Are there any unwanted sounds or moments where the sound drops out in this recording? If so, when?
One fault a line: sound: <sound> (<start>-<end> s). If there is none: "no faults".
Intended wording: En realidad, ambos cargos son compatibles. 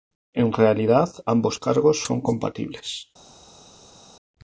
no faults